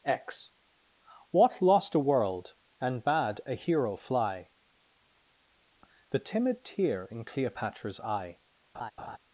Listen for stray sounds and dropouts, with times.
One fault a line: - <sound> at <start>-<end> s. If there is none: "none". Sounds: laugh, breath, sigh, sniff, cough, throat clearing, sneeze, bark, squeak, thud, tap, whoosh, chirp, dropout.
- laugh at 8.7-9.2 s